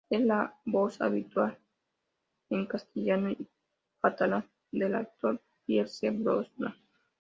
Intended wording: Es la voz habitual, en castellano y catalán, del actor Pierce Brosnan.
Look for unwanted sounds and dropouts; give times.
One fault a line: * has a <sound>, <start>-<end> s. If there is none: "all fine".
all fine